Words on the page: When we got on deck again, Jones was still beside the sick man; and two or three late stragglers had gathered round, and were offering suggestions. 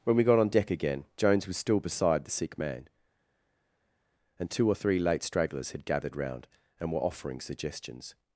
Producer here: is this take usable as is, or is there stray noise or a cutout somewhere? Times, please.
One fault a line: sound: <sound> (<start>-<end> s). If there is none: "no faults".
no faults